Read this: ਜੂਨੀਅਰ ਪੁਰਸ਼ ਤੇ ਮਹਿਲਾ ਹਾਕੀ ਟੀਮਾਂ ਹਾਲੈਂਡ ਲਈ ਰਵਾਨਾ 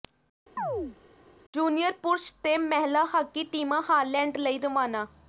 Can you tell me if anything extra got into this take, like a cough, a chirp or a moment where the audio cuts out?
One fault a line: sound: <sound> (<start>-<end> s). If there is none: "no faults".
sound: chirp (0.6-1.0 s)